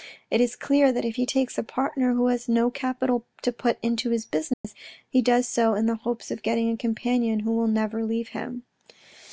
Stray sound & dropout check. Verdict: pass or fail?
fail